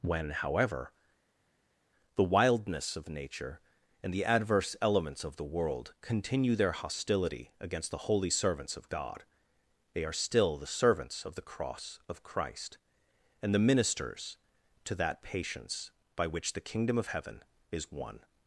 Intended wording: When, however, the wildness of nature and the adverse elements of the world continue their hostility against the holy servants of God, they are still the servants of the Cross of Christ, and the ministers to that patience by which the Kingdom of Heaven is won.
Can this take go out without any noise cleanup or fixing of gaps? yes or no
yes